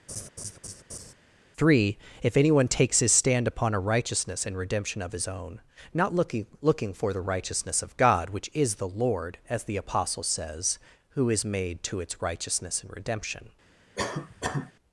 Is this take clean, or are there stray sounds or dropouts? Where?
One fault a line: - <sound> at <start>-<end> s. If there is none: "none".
- laugh at 0.1-1.1 s
- cough at 13.9-14.7 s